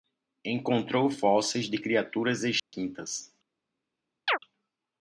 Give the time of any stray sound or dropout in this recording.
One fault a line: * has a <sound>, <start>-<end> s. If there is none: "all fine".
* has a dropout, 2.6-2.7 s
* has a chirp, 4.3-4.4 s